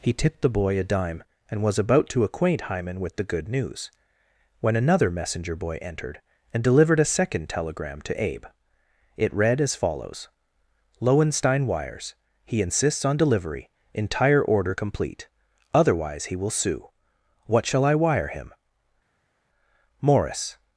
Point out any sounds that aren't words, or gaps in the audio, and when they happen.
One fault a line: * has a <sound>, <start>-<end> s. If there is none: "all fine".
all fine